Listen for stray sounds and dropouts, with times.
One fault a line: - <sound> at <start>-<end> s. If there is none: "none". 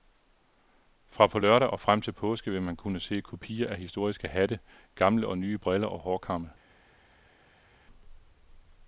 none